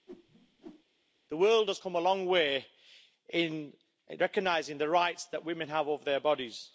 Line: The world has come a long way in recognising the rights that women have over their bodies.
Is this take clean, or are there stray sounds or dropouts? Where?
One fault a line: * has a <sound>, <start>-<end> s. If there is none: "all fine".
* has a whoosh, 0.1-0.8 s